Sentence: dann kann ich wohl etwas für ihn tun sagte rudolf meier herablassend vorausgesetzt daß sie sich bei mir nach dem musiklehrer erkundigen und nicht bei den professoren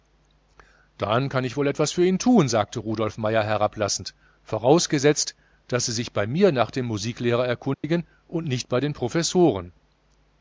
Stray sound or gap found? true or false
true